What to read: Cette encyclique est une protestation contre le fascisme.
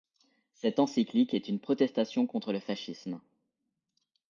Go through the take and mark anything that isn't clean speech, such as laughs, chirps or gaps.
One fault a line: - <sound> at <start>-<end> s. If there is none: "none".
none